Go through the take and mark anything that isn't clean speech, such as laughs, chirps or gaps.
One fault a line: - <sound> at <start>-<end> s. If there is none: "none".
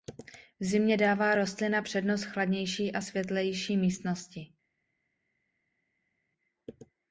none